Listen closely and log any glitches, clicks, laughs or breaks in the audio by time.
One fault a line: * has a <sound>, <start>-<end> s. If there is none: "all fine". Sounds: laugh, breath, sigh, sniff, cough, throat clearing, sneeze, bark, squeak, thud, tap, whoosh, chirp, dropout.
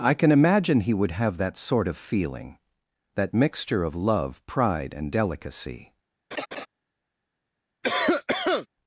* has a laugh, 6.3-6.7 s
* has a cough, 7.8-8.7 s